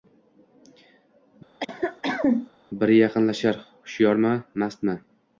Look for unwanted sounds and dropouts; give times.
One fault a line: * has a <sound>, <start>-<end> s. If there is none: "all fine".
* has a cough, 1.6-2.5 s